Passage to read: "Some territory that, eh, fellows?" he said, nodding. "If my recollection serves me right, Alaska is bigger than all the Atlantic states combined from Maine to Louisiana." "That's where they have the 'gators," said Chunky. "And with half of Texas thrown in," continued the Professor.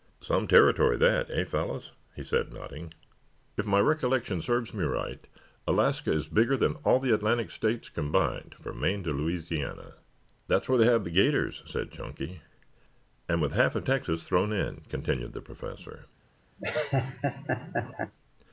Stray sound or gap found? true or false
true